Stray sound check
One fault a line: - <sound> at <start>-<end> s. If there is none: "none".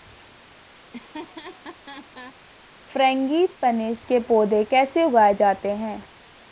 - laugh at 0.8-2.4 s